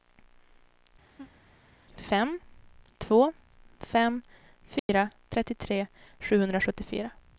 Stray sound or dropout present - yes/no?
yes